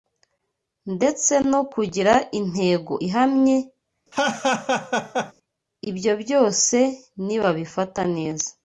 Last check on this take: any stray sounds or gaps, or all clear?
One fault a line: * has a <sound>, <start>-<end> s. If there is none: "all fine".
* has a laugh, 4.1-5.3 s